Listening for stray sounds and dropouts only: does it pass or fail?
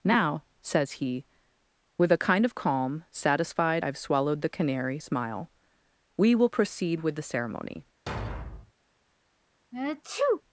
fail